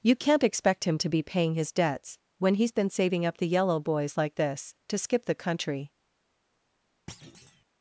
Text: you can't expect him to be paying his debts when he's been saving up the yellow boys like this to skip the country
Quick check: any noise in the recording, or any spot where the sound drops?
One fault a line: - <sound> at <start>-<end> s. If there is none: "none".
- thud at 7.1-7.6 s